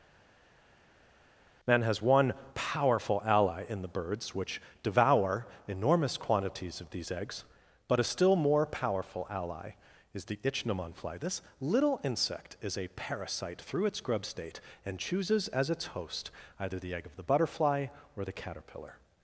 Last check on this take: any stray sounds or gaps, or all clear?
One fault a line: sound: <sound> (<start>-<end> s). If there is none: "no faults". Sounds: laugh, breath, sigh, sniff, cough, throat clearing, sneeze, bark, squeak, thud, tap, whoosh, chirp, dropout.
no faults